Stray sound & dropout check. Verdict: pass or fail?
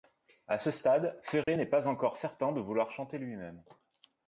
fail